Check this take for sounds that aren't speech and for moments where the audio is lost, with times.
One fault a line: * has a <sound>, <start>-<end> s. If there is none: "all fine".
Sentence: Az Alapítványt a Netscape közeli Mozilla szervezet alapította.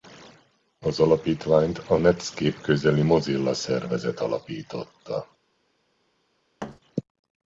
* has a thud, 6.6-6.8 s